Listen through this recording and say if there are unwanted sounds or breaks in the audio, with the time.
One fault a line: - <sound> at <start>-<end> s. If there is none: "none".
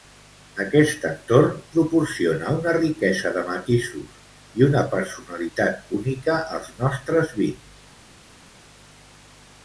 none